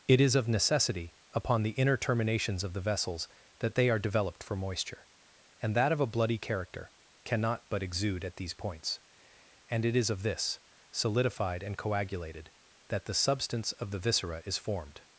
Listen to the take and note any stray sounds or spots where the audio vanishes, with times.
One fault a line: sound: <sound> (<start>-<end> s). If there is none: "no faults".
no faults